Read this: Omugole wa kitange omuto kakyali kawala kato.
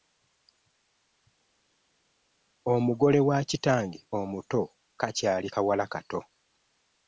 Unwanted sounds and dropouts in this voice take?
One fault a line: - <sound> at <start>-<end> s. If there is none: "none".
none